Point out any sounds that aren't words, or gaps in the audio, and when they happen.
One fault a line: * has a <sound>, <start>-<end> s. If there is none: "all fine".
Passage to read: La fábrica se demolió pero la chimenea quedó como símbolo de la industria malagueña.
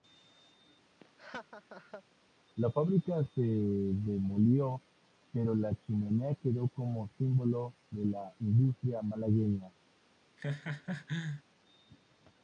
* has a laugh, 1.0-2.0 s
* has a laugh, 10.4-11.4 s